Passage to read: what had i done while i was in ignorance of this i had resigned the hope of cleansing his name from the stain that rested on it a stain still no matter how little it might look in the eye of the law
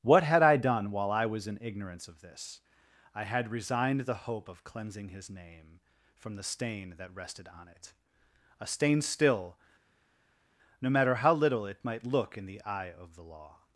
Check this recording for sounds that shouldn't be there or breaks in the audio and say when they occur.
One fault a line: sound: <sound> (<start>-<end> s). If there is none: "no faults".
no faults